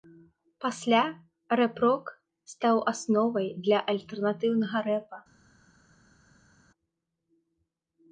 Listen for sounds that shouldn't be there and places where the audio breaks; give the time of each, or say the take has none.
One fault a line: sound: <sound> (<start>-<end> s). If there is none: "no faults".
no faults